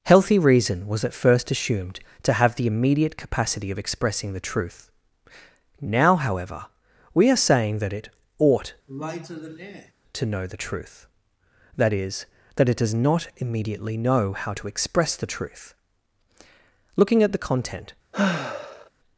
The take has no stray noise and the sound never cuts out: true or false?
false